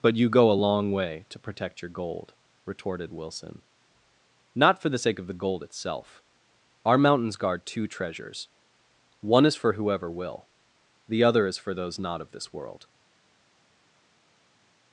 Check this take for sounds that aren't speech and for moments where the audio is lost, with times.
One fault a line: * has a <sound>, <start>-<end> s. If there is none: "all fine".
all fine